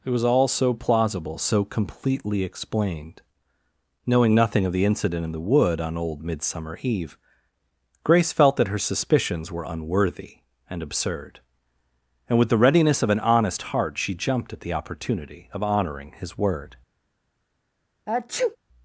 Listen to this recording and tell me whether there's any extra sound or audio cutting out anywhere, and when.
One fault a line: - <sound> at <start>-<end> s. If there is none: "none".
- sneeze at 18.1-18.6 s